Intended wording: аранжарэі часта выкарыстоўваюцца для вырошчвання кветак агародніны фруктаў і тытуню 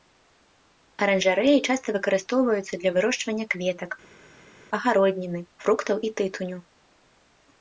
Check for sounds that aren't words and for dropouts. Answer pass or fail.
pass